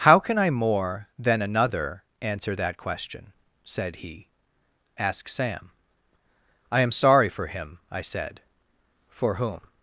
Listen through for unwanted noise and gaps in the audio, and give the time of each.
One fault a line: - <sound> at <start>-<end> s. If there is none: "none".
none